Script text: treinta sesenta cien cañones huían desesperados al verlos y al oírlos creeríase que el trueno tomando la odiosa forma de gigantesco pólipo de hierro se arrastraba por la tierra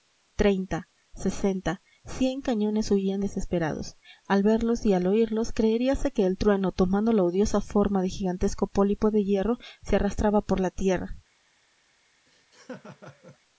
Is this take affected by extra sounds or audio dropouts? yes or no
yes